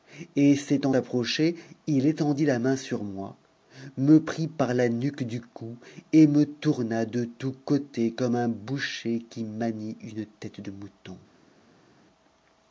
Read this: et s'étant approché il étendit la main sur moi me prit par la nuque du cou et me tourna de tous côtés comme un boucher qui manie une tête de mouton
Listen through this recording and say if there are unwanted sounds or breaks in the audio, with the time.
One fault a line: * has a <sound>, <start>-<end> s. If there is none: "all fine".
all fine